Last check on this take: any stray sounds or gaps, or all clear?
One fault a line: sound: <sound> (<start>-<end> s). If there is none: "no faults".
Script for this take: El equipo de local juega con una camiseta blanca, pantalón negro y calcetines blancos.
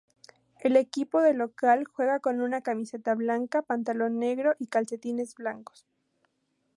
no faults